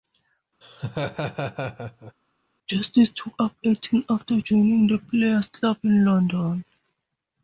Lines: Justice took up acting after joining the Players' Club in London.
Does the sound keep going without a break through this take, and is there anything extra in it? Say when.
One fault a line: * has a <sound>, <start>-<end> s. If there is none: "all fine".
* has a laugh, 0.6-2.1 s